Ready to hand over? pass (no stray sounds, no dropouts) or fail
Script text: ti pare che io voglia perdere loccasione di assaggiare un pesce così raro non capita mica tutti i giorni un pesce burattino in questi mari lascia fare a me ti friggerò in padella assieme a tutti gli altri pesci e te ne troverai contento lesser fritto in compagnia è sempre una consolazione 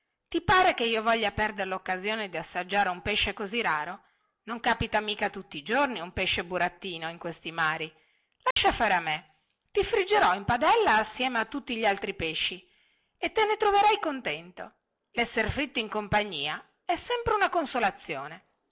fail